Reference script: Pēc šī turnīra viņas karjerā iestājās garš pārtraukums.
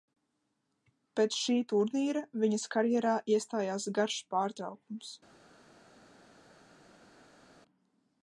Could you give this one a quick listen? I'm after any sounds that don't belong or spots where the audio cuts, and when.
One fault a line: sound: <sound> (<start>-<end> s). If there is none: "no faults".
no faults